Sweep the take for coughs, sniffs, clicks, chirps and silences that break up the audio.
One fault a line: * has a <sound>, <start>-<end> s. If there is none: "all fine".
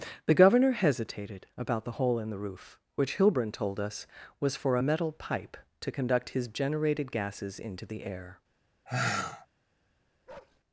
* has a sigh, 8.9-9.5 s
* has a bark, 10.3-10.6 s